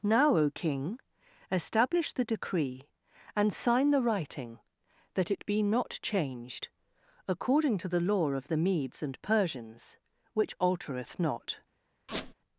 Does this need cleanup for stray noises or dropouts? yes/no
yes